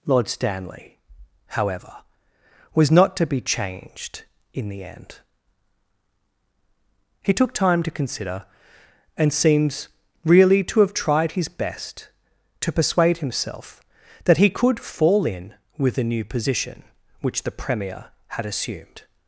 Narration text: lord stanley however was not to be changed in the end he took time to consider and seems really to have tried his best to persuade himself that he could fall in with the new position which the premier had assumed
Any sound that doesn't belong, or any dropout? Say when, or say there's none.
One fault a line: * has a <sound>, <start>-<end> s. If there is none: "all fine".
all fine